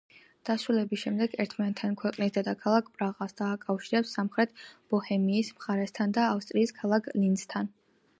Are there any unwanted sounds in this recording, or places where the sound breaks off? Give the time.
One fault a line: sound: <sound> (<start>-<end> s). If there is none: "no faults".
no faults